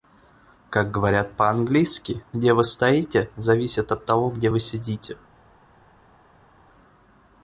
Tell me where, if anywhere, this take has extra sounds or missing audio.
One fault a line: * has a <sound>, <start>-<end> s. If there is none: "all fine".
all fine